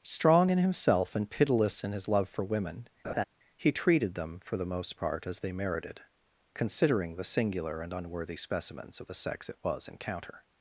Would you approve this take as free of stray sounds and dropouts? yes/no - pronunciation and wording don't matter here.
no